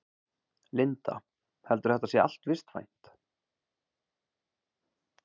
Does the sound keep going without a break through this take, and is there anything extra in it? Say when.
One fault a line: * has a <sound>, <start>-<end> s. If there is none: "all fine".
all fine